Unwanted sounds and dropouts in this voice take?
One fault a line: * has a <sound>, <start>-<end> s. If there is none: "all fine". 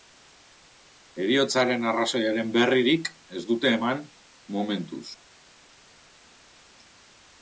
all fine